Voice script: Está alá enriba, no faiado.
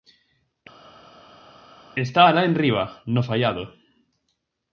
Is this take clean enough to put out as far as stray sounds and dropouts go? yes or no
yes